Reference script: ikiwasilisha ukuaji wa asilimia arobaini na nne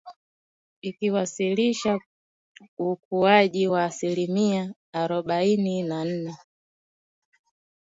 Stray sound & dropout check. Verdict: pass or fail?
pass